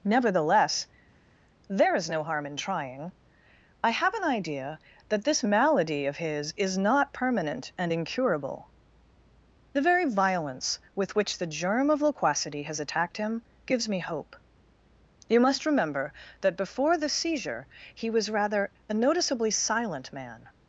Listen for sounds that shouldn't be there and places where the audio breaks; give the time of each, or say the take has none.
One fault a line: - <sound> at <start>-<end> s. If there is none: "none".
none